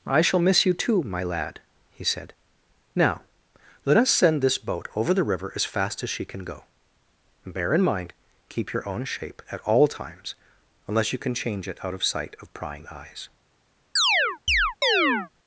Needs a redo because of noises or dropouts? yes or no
yes